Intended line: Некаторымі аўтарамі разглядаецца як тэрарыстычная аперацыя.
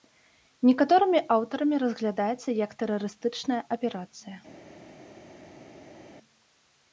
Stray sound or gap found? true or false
false